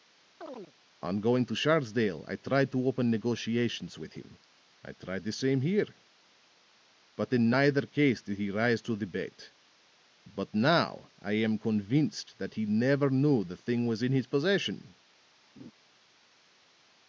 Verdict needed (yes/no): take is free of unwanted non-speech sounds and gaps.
no